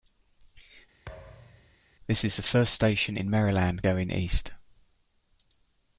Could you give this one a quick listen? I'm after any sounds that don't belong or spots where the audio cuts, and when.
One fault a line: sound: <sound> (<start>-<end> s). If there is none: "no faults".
sound: thud (1.1-1.8 s)